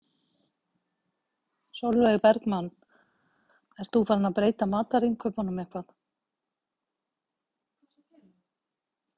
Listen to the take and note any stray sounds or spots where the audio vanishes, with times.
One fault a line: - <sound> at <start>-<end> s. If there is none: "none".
none